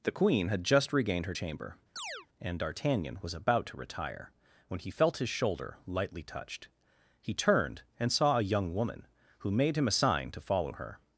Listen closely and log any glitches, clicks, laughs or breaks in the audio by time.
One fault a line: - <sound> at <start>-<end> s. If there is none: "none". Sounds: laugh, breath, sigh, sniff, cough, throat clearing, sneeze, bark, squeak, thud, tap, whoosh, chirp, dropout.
- chirp at 2.0-2.3 s